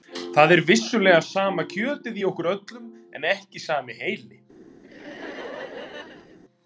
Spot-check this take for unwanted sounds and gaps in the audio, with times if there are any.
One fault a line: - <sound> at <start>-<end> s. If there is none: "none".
- laugh at 4.8-6.4 s